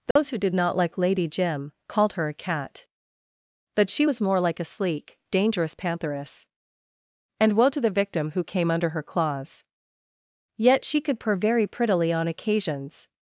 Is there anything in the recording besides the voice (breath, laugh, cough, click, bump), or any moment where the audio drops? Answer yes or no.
yes